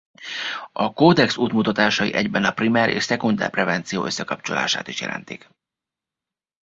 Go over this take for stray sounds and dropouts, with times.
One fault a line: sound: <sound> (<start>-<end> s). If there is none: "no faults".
no faults